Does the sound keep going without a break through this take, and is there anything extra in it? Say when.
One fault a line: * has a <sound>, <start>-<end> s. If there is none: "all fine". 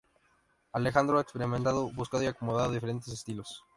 all fine